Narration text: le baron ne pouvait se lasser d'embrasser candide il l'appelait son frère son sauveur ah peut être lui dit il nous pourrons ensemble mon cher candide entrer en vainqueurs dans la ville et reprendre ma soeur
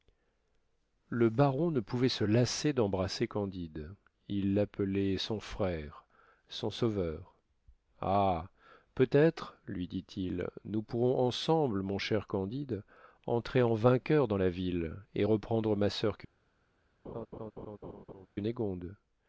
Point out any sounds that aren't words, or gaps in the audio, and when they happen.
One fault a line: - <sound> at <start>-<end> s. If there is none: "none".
- laugh at 17.0-18.3 s